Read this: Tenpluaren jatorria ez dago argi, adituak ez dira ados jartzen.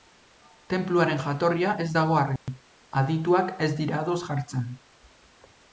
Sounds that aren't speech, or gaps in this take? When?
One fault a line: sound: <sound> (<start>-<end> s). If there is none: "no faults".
sound: dropout (2.4-2.5 s)